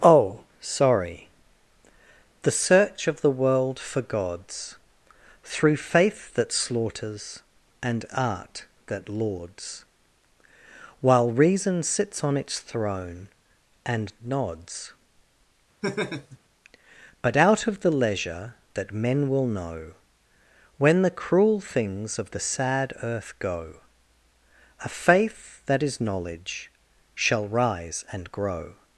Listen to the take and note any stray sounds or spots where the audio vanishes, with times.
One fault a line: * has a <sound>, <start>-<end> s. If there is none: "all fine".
* has a laugh, 15.8-16.4 s